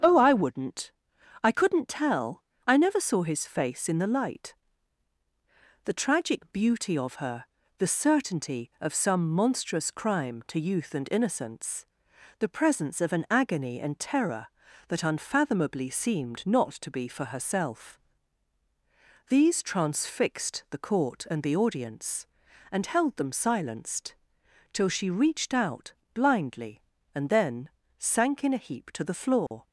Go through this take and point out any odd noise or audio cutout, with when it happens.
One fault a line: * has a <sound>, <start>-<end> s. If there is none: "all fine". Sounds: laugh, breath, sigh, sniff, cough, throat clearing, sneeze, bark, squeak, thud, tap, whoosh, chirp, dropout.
* has a dropout, 29.5-29.5 s